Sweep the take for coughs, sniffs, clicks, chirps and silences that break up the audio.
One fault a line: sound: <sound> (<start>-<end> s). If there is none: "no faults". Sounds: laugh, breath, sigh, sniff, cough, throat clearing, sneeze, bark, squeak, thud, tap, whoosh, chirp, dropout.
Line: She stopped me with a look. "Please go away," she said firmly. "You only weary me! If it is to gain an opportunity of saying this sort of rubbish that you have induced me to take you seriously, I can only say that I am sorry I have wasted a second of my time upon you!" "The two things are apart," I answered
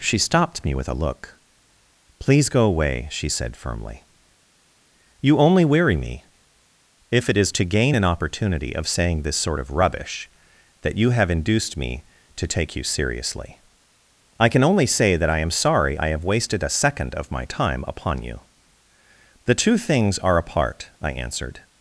no faults